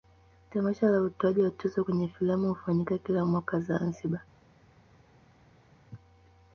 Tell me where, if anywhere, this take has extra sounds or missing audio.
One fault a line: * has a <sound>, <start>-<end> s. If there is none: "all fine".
all fine